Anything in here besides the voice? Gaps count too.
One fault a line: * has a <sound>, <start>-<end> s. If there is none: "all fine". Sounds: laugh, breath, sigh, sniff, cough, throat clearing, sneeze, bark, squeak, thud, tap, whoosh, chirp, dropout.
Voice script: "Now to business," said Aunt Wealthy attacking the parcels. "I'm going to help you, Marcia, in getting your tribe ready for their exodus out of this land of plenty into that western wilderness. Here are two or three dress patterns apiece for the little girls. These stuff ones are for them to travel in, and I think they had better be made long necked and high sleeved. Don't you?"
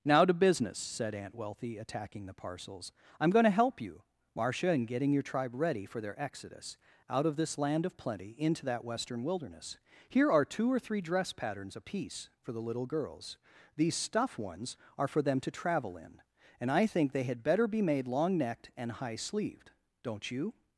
all fine